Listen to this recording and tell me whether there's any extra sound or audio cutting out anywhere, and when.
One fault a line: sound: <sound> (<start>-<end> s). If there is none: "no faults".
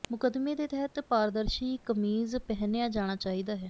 no faults